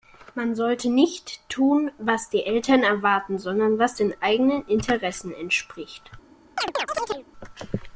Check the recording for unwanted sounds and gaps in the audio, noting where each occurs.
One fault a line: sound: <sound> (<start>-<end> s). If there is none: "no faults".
sound: chirp (6.6-7.2 s)